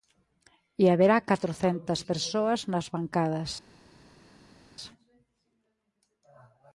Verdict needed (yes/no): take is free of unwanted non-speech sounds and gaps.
yes